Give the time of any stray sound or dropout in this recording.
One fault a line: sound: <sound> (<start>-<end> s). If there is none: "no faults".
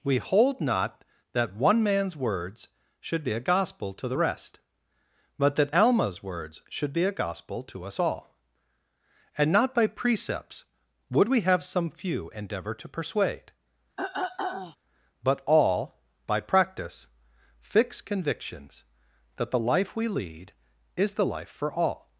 sound: throat clearing (14.0-14.8 s)